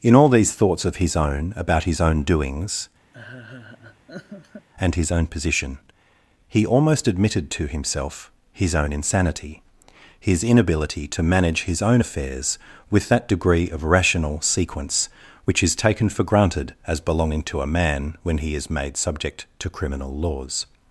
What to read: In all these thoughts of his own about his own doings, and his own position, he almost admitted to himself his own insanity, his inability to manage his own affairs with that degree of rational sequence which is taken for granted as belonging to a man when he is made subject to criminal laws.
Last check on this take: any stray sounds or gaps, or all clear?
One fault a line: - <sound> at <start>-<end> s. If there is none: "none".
- laugh at 3.1-4.7 s